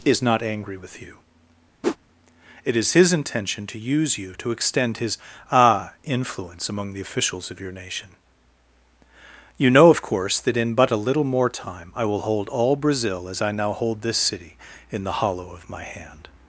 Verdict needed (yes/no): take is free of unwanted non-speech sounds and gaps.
no